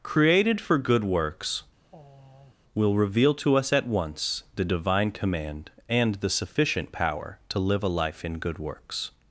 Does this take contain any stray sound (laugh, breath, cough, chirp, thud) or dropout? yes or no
yes